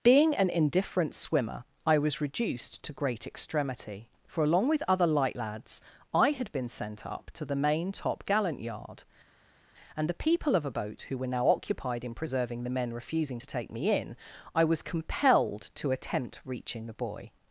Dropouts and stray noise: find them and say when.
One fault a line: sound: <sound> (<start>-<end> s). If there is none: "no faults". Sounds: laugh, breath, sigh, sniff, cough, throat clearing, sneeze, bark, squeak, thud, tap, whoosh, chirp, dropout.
no faults